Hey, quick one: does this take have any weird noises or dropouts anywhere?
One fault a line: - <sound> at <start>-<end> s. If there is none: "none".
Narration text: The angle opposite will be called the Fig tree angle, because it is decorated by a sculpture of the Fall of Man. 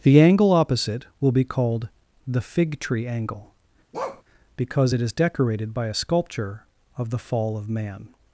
- bark at 3.9-4.2 s